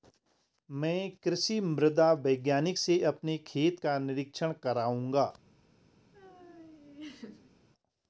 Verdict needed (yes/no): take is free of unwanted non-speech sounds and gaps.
no